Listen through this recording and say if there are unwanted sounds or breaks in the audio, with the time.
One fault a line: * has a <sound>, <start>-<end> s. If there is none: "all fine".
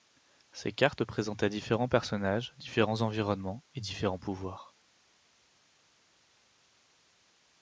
all fine